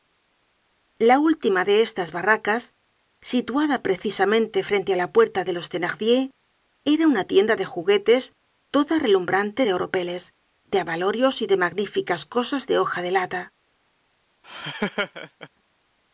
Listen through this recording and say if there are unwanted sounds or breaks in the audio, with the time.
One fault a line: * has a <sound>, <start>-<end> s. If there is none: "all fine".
* has a laugh, 14.4-15.5 s